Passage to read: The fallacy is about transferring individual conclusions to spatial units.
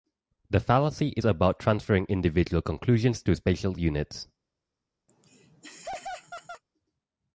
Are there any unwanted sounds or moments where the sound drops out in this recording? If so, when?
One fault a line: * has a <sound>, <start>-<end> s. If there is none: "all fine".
* has a laugh, 5.1-6.6 s